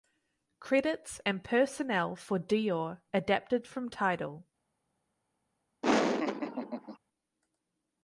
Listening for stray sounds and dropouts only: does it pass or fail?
fail